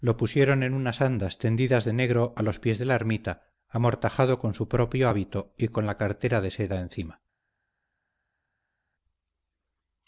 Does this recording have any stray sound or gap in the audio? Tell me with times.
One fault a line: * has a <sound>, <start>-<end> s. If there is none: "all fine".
all fine